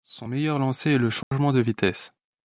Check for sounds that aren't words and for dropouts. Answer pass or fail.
fail